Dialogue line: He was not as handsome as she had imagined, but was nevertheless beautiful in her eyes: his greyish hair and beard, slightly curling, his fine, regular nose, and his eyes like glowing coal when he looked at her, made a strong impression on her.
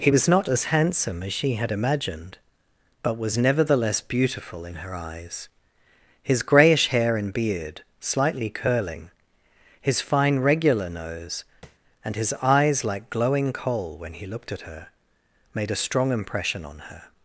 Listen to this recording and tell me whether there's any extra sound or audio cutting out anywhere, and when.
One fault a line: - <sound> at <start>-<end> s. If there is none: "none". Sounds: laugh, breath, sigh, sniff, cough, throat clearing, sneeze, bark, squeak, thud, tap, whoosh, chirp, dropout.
- tap at 11.6-11.8 s